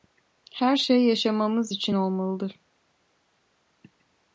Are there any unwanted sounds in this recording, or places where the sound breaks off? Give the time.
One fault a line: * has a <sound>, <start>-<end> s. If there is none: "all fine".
all fine